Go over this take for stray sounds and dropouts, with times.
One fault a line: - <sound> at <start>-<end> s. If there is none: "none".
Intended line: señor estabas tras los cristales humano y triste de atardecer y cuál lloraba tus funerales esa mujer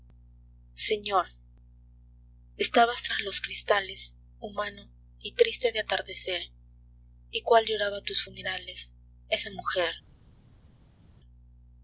none